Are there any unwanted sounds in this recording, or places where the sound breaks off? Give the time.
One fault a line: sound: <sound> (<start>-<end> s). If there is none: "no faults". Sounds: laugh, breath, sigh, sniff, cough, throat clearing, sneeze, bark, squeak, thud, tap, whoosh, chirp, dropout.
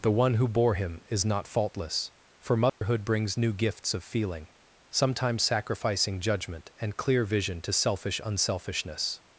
sound: dropout (2.7-2.8 s)